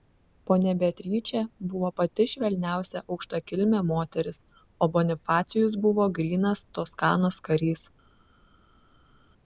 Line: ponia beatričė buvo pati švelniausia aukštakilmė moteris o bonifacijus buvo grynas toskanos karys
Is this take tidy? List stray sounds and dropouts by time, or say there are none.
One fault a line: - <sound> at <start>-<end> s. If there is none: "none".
none